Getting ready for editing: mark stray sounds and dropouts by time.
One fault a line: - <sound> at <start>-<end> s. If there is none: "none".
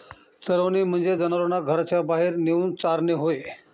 none